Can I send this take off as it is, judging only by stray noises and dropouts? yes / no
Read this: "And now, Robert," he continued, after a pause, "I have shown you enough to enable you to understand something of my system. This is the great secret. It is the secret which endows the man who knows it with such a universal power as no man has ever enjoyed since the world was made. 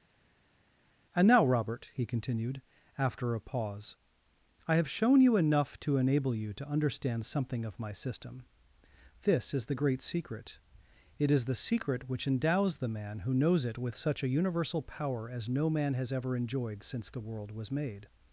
yes